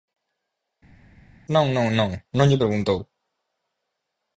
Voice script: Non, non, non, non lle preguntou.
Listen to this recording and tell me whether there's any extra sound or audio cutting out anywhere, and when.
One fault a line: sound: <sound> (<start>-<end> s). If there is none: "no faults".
no faults